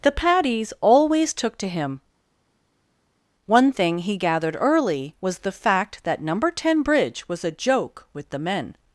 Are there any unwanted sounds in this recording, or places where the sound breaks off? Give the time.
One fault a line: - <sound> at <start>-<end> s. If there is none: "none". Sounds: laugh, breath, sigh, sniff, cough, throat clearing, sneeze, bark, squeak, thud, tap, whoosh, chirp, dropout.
none